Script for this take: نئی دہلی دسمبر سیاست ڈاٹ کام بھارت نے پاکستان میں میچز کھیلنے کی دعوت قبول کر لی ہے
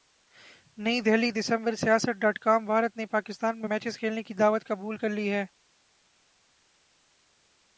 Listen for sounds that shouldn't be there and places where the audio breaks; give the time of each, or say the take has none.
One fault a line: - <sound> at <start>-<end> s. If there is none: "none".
none